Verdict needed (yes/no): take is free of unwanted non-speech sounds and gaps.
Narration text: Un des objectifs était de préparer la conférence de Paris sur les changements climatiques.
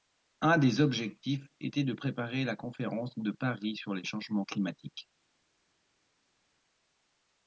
yes